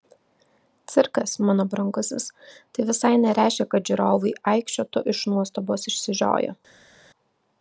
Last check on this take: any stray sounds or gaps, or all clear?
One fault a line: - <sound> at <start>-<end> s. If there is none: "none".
none